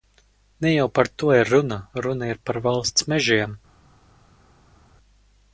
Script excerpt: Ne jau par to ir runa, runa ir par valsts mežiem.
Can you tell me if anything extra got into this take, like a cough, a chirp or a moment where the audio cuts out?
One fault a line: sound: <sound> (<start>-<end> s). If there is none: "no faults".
no faults